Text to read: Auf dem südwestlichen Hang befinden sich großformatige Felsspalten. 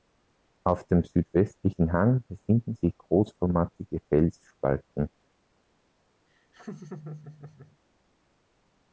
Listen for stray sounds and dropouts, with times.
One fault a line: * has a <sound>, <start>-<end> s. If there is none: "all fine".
* has a laugh, 6.3-7.8 s